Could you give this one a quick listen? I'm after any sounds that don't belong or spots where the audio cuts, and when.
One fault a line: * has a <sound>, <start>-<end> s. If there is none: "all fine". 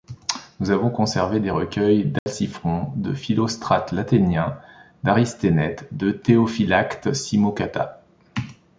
* has a dropout, 2.2-2.3 s